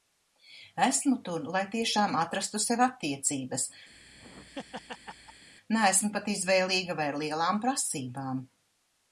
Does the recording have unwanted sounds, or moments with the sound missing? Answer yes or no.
yes